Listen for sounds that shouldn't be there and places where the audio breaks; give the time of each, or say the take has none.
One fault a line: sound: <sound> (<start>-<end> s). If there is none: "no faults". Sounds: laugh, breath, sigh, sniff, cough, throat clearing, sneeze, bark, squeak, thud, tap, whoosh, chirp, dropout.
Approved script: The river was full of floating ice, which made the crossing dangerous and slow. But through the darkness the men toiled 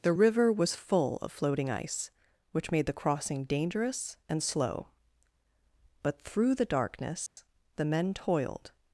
sound: dropout (7.3-7.4 s)